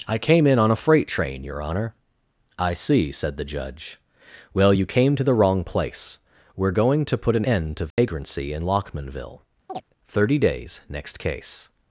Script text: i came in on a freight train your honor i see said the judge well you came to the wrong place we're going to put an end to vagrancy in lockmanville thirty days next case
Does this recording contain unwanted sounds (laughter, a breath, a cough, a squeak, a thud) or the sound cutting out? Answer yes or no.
yes